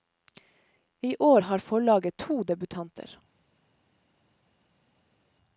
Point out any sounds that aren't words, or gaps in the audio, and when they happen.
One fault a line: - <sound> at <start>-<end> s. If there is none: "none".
none